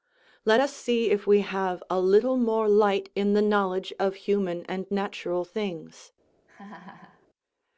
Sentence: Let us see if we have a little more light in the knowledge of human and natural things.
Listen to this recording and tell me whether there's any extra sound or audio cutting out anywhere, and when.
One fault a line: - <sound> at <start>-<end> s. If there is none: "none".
- laugh at 6.5-7.3 s